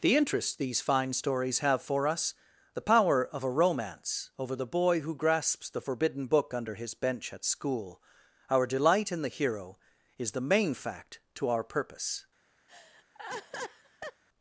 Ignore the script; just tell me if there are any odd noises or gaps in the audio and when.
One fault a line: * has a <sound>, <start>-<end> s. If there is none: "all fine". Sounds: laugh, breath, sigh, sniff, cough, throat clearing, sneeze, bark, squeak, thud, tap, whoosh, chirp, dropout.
* has a laugh, 12.7-14.2 s